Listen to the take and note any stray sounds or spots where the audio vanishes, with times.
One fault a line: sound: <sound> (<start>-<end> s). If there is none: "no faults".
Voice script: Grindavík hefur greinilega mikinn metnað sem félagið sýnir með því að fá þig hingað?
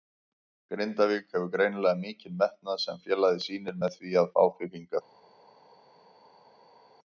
no faults